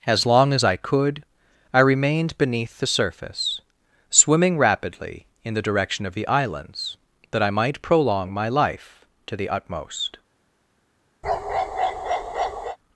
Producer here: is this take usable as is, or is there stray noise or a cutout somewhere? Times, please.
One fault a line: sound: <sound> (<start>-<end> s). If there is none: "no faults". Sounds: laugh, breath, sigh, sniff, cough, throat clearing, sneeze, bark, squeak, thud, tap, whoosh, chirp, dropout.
sound: bark (11.2-12.8 s)